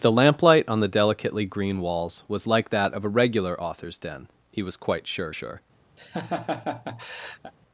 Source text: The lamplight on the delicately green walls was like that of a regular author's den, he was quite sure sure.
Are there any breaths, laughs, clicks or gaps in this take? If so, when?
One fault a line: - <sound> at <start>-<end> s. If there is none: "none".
- laugh at 6.0-7.5 s